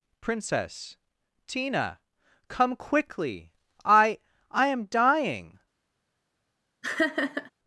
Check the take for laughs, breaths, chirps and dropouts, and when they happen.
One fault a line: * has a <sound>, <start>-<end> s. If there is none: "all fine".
* has a laugh, 6.8-7.5 s